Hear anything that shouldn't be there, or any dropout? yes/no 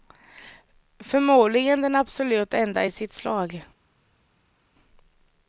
no